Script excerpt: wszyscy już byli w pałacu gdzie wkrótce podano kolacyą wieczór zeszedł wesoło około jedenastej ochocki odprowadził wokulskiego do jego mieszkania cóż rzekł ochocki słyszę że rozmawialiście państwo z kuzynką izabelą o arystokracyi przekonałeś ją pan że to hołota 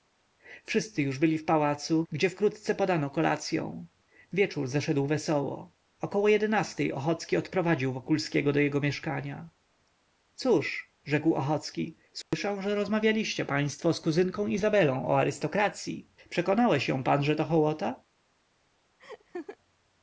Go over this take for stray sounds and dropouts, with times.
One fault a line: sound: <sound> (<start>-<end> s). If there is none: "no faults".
sound: dropout (12.2-12.3 s)
sound: laugh (19.0-19.6 s)